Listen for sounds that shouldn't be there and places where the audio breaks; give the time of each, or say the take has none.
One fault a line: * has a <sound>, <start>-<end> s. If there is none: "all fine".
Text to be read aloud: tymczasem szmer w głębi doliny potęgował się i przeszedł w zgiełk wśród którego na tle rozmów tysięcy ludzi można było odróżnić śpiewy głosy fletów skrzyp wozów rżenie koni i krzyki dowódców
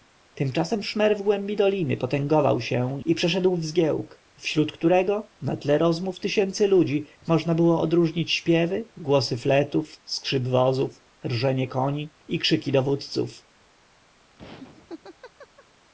* has a laugh, 14.4-15.7 s